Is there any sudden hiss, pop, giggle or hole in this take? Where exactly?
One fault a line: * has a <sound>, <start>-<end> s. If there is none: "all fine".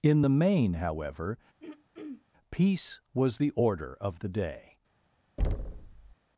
* has a throat clearing, 1.6-2.3 s
* has a thud, 5.4-6.1 s